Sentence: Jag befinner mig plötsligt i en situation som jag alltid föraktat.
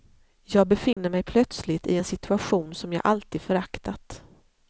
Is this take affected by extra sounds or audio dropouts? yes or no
yes